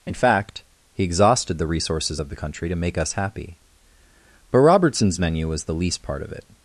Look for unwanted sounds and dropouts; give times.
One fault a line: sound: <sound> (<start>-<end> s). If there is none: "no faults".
no faults